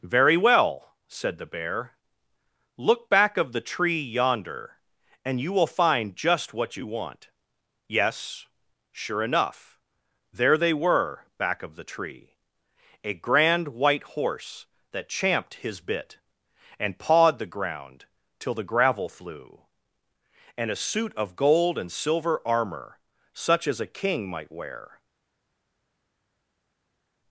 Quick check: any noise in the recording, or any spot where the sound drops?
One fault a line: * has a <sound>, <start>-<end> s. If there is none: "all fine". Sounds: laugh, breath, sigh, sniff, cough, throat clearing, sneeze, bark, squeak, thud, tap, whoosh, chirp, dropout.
all fine